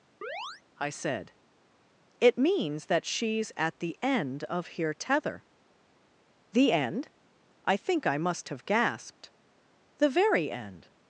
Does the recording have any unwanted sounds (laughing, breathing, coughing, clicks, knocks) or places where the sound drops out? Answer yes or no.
yes